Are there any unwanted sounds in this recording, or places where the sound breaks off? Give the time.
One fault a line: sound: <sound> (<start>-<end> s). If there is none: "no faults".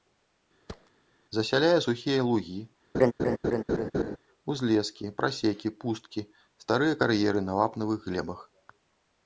sound: thud (0.7-0.9 s)
sound: laugh (2.9-4.2 s)